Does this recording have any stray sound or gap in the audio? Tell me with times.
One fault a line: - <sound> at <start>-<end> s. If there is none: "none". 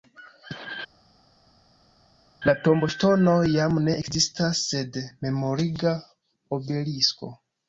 none